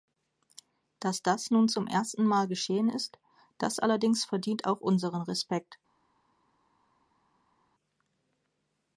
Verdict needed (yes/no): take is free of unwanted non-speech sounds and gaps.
yes